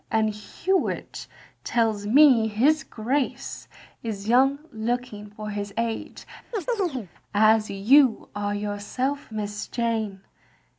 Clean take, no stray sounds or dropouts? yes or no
no